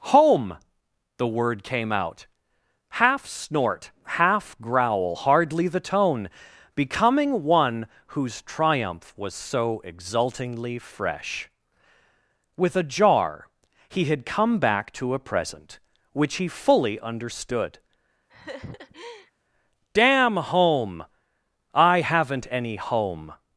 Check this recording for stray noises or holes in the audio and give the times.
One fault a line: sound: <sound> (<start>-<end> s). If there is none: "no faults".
sound: laugh (18.3-19.3 s)